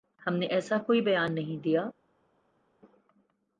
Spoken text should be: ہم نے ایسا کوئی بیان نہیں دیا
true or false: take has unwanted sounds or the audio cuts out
false